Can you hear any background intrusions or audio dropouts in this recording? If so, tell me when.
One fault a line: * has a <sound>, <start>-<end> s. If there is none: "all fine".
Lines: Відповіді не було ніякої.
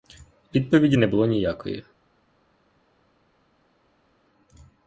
all fine